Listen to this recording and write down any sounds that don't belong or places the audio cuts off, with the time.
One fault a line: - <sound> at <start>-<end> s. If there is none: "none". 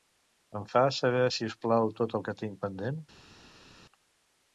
none